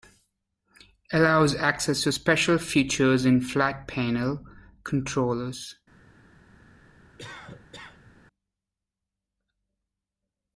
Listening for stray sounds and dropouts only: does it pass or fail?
fail